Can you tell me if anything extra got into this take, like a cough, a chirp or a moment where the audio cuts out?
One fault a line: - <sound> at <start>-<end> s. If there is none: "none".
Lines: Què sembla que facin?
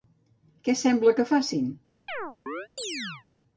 - chirp at 2.1-3.3 s